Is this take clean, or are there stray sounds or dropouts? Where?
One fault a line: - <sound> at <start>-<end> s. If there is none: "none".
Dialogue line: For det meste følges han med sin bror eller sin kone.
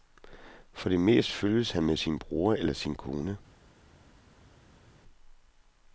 none